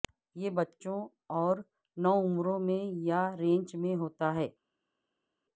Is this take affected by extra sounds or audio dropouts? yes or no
no